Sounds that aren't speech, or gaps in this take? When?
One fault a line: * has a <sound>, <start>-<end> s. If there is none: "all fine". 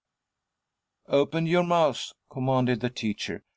all fine